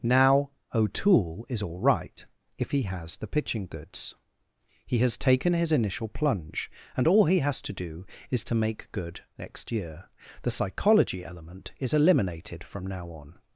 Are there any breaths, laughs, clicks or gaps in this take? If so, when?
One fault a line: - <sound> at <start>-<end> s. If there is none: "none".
none